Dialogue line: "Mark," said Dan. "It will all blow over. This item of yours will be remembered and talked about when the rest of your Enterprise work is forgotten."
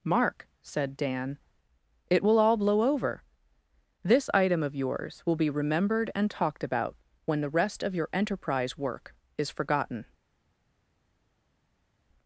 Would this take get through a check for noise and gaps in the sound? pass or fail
pass